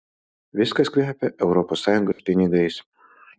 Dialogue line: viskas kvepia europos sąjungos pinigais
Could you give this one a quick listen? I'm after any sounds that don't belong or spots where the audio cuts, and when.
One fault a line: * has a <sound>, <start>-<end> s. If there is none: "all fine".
* has a dropout, 2.1-2.2 s